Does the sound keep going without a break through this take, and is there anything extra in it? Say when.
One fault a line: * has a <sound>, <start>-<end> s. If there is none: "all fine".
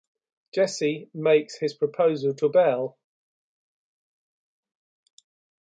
all fine